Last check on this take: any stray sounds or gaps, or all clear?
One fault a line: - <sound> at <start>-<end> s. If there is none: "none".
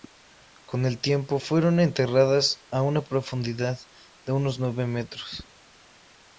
none